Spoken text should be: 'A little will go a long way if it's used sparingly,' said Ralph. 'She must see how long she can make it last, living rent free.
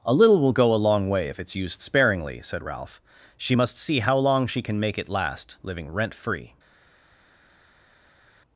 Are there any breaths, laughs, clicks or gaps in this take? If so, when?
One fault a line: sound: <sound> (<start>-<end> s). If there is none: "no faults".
no faults